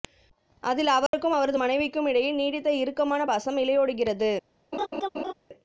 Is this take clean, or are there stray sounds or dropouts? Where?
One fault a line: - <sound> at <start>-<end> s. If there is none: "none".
- dropout at 1.1-1.1 s
- laugh at 4.7-5.3 s